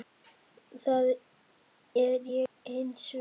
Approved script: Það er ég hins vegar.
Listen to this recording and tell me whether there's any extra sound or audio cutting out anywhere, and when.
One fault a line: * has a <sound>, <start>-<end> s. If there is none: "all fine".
* has a dropout, 2.5-2.6 s